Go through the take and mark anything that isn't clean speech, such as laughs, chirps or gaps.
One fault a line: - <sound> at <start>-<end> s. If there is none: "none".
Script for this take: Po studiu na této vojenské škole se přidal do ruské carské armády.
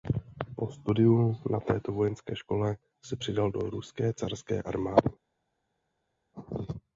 none